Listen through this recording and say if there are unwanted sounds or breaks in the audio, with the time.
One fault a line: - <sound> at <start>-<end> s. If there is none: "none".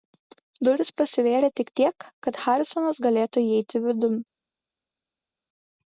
none